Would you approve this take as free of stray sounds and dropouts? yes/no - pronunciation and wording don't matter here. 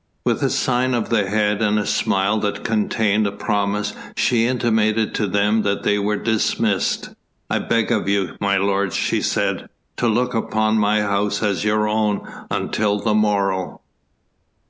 yes